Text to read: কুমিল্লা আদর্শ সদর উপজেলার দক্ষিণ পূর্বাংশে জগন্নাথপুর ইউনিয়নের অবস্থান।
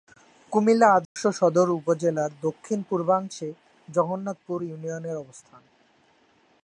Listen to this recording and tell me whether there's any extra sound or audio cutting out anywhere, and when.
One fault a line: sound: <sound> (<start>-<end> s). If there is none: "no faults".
sound: dropout (1.0-1.2 s)